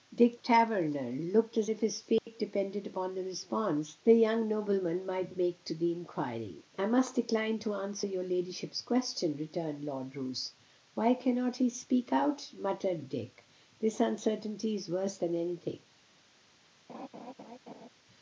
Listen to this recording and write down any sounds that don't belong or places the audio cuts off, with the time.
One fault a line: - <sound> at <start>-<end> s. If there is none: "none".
- dropout at 2.2-2.3 s
- laugh at 16.9-17.9 s